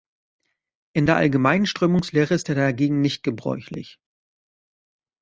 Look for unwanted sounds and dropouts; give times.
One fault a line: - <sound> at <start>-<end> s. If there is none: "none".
none